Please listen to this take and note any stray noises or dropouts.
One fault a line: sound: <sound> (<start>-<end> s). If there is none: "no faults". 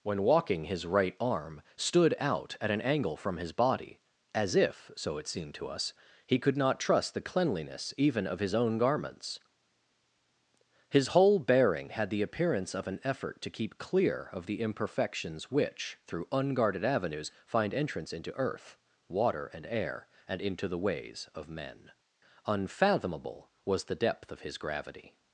no faults